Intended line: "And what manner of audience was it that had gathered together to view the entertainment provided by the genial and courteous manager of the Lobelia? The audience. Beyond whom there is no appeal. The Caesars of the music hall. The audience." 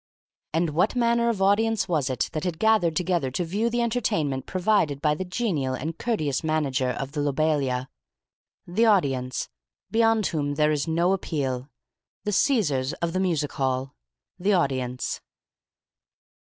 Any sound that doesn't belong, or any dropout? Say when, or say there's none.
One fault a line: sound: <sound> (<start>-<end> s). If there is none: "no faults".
no faults